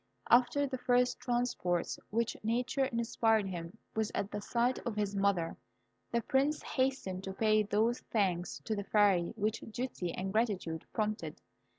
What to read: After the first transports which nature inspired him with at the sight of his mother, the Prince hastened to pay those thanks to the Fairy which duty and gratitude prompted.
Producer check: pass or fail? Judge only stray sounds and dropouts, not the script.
pass